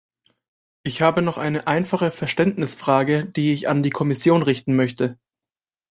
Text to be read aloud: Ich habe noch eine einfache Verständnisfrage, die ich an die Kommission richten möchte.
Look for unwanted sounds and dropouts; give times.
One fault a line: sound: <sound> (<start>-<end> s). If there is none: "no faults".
no faults